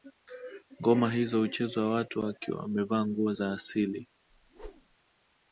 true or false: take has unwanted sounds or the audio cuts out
true